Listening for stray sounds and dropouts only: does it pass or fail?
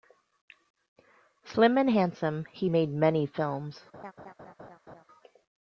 fail